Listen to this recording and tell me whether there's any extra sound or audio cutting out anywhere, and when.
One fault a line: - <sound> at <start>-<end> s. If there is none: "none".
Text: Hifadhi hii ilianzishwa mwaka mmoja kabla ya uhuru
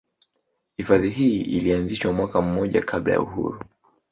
none